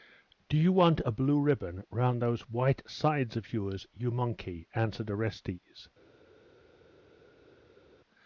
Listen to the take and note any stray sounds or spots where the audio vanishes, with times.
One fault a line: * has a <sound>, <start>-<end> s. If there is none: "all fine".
all fine